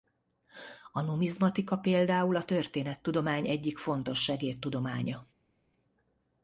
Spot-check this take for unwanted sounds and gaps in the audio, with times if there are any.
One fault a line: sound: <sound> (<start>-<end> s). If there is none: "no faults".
no faults